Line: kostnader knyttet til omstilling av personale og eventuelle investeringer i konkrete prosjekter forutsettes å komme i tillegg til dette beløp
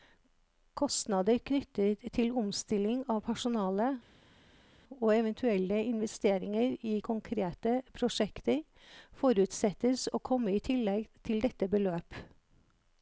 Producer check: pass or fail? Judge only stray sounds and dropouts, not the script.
pass